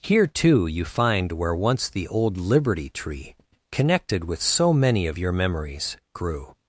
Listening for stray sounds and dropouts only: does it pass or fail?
pass